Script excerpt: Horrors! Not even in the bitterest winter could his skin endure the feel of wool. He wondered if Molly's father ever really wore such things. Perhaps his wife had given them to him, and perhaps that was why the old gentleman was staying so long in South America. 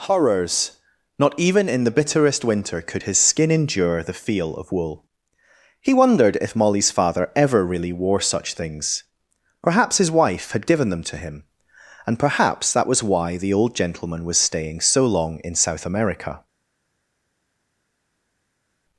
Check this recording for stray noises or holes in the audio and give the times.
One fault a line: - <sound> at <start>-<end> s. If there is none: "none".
none